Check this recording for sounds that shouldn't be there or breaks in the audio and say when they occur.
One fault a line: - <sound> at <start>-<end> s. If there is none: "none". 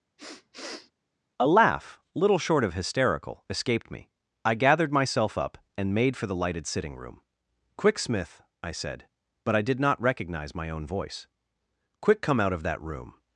- sniff at 0.2-0.9 s